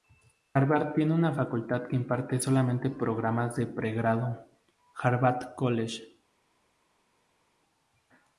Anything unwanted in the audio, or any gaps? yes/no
no